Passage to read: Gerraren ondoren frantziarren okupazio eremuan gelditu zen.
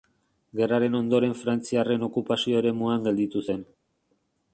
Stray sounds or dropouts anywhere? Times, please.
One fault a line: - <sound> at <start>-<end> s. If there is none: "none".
none